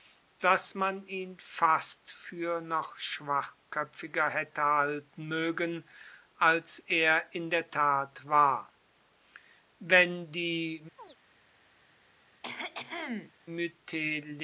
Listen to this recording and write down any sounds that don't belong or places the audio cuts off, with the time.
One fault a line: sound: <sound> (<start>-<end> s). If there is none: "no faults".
sound: chirp (11.0-11.2 s)
sound: cough (12.4-13.3 s)